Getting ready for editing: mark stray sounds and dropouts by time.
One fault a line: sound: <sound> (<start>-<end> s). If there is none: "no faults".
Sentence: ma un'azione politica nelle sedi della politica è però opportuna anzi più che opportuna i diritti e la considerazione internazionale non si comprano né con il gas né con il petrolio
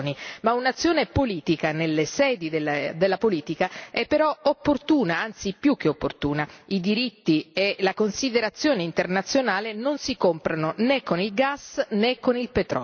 no faults